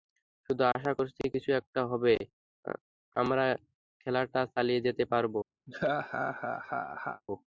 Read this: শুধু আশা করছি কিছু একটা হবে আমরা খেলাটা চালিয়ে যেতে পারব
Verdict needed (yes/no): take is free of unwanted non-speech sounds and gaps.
no